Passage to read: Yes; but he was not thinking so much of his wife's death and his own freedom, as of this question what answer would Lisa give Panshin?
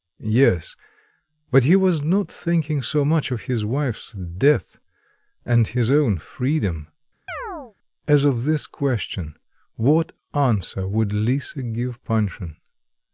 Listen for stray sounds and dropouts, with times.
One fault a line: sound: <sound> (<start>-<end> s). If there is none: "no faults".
sound: chirp (7.3-7.7 s)